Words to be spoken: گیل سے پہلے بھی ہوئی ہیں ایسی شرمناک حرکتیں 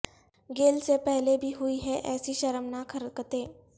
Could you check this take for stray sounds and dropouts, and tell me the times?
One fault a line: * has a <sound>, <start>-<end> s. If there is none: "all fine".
all fine